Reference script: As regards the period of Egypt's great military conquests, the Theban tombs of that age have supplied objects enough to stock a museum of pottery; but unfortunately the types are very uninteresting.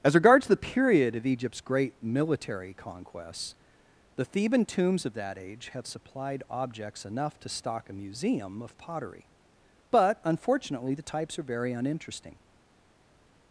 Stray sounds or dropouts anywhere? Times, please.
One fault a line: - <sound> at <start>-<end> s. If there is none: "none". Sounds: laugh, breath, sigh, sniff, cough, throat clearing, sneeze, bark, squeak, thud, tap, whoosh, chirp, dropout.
none